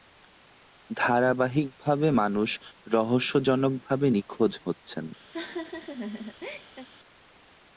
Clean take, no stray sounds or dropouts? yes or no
no